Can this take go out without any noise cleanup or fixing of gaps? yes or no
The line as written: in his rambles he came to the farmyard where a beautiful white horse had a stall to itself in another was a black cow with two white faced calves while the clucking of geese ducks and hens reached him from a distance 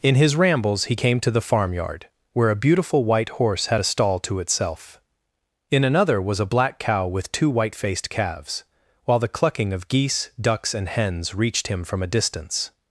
yes